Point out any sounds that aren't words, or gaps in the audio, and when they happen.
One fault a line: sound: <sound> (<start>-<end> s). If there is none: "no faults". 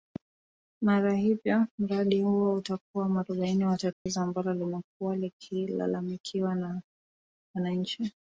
sound: dropout (3.9-4.1 s)